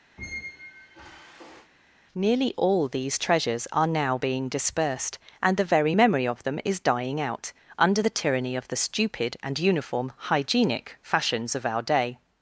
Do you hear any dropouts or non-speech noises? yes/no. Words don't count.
yes